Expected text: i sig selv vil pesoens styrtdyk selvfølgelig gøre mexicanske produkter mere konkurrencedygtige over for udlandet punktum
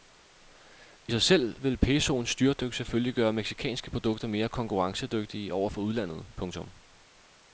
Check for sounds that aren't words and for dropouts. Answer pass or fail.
pass